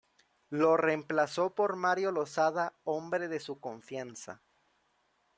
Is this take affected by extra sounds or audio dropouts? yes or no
no